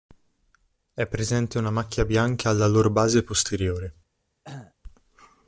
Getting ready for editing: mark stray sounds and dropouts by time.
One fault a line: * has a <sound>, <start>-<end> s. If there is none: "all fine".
* has a cough, 4.4-4.7 s